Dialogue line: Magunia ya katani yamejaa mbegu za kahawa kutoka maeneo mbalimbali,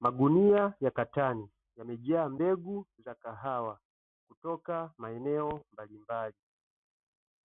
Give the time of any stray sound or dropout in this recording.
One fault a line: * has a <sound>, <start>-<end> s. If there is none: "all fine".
all fine